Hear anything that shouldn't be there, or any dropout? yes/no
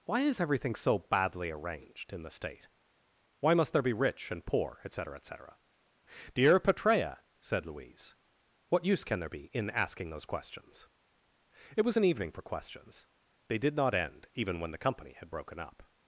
no